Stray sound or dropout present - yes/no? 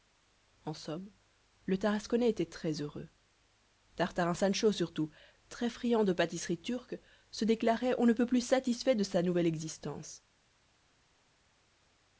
no